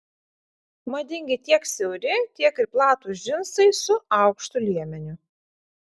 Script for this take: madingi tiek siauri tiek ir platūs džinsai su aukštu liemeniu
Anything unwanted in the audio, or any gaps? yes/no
no